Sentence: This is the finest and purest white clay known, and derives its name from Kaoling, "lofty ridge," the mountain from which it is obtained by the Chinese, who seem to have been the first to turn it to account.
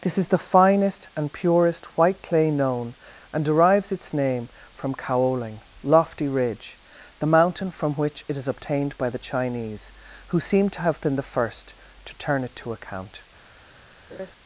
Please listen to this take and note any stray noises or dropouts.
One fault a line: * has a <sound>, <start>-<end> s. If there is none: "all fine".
* has a laugh, 14.1-14.3 s